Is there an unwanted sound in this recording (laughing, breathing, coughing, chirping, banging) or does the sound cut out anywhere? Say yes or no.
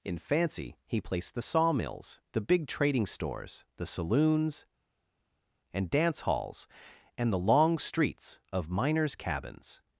no